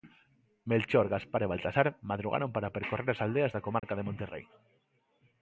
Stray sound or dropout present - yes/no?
yes